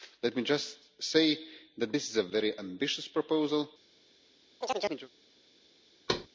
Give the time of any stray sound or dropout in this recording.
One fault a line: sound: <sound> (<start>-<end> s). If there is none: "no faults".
sound: chirp (4.6-5.1 s)
sound: thud (6.1-6.3 s)